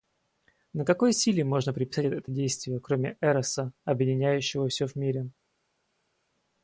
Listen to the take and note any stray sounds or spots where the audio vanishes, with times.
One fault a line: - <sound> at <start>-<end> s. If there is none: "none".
none